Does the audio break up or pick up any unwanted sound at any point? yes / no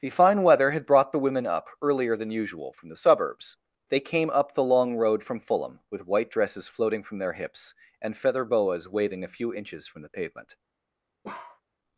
yes